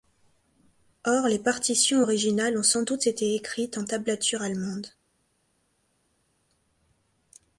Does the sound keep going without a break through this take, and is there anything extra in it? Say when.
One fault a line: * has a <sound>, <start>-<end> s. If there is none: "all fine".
all fine